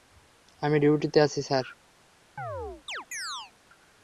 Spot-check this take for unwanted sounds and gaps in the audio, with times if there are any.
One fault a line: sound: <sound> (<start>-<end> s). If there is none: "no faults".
sound: chirp (2.4-3.5 s)